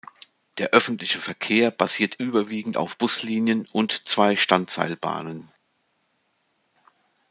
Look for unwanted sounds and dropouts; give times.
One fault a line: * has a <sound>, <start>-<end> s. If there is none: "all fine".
all fine